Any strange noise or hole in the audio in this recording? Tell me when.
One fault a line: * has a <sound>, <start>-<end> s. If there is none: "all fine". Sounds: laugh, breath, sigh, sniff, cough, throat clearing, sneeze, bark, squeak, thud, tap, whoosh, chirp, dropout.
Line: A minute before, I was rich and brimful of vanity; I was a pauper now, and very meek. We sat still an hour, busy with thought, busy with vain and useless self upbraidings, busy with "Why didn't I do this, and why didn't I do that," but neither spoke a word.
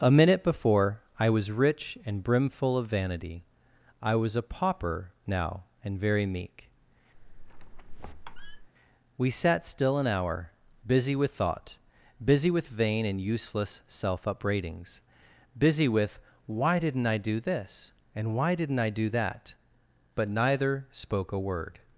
* has a squeak, 7.1-8.7 s